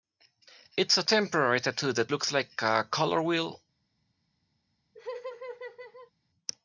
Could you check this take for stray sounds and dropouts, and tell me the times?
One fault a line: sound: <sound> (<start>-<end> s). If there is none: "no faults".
sound: laugh (4.9-6.1 s)